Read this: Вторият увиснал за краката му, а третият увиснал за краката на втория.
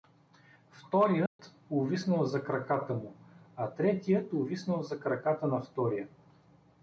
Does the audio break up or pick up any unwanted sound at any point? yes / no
yes